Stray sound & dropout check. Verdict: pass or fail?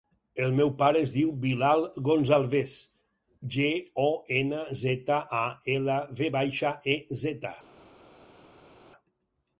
pass